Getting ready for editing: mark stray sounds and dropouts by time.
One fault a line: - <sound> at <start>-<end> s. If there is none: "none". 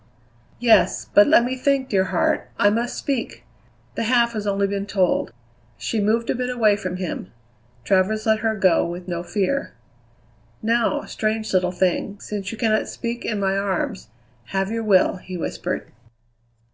none